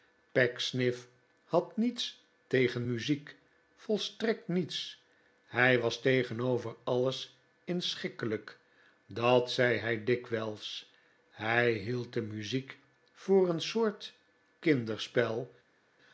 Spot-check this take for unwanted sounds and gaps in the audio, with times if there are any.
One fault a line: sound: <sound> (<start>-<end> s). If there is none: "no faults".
no faults